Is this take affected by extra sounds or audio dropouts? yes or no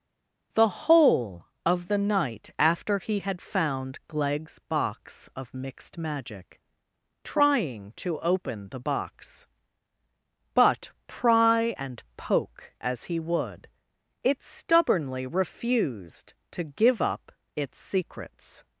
no